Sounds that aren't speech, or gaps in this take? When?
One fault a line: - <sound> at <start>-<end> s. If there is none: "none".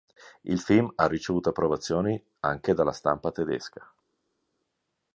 none